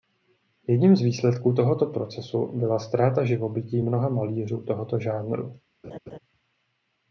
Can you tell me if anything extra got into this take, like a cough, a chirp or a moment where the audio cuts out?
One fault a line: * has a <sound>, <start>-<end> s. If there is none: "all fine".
* has a laugh, 5.8-6.2 s